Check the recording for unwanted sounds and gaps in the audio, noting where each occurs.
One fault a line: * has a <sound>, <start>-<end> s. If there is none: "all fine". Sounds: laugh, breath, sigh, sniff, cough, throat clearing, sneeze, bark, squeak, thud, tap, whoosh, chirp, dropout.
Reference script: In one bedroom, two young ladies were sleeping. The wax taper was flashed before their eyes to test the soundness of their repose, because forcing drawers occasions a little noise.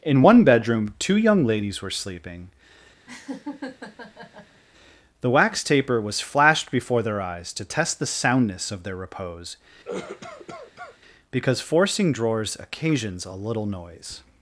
* has a laugh, 3.1-4.6 s
* has a cough, 9.8-11.0 s